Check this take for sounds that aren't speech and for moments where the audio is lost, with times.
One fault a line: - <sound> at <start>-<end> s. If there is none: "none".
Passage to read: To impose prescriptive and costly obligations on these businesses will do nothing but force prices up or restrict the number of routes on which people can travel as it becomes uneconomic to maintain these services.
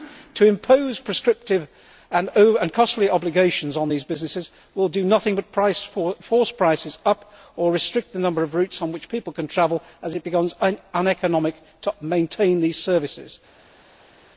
none